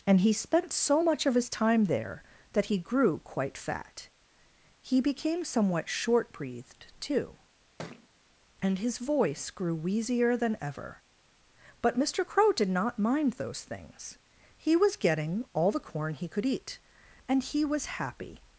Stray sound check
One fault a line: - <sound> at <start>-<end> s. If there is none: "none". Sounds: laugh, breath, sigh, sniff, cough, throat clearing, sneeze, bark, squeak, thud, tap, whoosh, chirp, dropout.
- thud at 7.8-8.1 s